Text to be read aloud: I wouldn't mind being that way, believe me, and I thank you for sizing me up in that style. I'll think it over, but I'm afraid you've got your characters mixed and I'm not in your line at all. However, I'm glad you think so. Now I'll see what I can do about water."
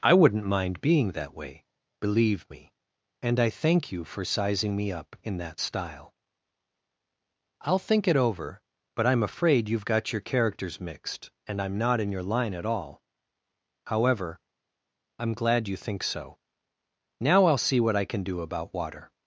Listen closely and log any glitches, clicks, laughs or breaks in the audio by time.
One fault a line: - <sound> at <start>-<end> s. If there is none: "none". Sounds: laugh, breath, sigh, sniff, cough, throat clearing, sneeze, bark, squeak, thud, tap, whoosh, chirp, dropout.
none